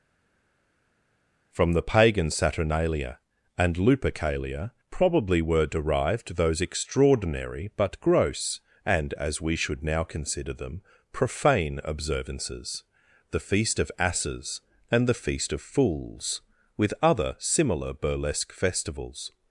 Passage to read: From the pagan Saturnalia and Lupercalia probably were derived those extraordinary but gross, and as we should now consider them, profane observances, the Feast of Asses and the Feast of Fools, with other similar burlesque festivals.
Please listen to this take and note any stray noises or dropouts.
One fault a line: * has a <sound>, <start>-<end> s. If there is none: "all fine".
all fine